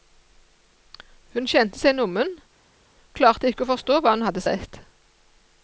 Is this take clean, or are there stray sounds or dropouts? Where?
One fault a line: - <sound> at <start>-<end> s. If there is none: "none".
none